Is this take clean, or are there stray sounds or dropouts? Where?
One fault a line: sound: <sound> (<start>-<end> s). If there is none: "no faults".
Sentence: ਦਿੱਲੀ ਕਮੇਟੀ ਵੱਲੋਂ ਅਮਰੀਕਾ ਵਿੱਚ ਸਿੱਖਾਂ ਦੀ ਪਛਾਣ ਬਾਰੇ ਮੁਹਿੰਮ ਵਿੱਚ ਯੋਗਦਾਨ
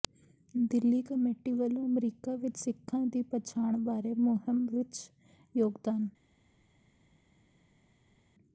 no faults